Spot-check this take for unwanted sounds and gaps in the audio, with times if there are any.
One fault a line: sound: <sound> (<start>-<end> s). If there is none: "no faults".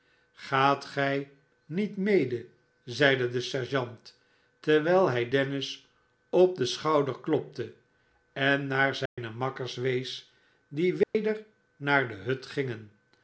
sound: dropout (9.1-9.2 s)
sound: dropout (11.0-11.1 s)